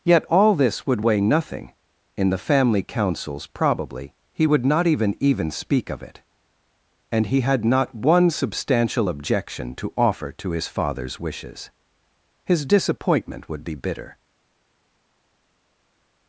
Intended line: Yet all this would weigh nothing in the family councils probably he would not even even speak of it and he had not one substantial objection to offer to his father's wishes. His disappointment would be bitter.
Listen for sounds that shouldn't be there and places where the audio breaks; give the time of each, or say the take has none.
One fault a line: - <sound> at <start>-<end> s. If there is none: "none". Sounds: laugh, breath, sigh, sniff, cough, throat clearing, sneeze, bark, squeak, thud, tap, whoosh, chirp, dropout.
none